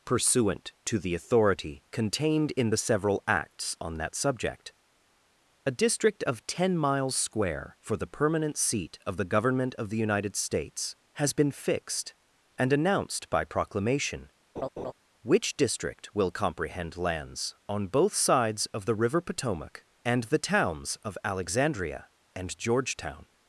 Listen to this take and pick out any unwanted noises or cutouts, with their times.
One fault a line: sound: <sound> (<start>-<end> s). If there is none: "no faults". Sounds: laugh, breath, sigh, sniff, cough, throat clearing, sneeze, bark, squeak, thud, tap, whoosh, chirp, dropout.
sound: laugh (14.6-14.9 s)